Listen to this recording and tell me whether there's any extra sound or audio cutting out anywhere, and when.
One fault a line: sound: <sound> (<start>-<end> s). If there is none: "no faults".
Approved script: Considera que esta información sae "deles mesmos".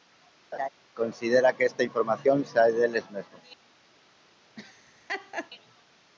sound: laugh (0.5-0.7 s)
sound: laugh (4.6-5.5 s)